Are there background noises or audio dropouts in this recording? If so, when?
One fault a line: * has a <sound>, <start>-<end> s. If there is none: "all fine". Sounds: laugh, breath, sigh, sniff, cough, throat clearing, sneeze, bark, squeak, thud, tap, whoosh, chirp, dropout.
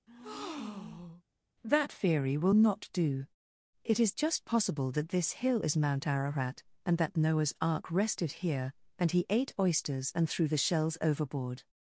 * has a breath, 0.1-1.2 s